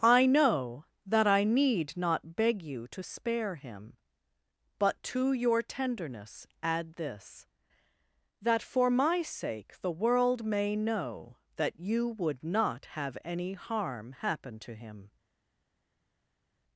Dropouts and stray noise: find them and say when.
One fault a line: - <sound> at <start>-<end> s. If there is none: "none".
none